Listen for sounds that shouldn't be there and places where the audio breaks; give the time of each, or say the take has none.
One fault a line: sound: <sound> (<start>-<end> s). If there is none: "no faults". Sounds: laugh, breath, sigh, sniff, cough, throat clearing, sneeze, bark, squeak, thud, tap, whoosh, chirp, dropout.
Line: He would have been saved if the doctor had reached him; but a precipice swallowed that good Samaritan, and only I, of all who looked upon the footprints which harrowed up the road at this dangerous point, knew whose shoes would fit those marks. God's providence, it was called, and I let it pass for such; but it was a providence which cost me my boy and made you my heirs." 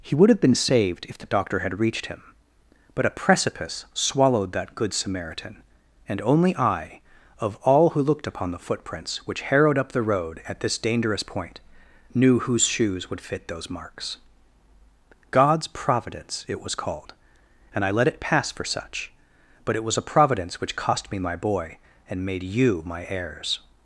no faults